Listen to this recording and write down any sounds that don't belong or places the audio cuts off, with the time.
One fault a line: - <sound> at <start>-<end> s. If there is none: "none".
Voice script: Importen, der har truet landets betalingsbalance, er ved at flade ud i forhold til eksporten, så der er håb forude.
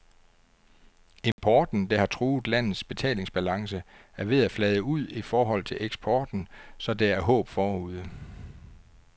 - dropout at 1.3-1.4 s